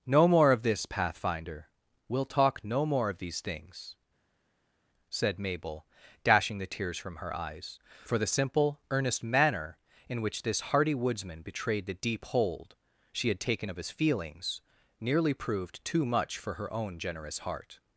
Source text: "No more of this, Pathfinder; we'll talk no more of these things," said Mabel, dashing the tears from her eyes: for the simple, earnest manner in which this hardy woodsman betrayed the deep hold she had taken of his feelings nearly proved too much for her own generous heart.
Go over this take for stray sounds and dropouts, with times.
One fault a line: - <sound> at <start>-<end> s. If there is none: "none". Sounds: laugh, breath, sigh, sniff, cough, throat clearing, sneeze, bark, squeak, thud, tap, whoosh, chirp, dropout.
none